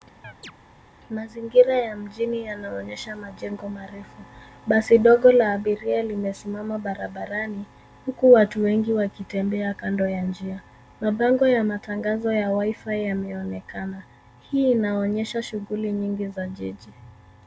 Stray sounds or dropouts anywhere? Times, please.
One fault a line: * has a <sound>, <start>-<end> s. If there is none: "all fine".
* has a chirp, 0.2-0.5 s